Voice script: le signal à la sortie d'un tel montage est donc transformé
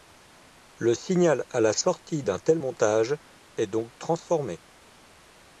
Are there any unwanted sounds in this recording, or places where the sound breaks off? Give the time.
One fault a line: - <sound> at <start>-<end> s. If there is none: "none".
none